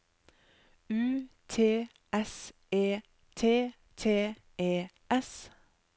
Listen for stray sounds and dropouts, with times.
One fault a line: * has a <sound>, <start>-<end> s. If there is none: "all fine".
all fine